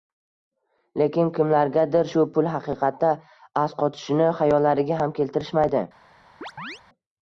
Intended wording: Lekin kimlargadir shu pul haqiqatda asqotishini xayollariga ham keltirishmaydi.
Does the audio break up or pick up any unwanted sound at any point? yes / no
yes